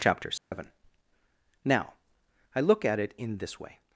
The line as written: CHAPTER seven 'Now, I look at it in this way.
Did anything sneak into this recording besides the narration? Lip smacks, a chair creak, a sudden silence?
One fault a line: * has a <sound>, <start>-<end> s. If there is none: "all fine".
* has a dropout, 0.4-0.5 s